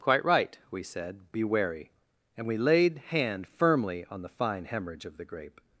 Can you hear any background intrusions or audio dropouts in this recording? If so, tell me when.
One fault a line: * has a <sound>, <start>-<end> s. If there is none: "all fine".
all fine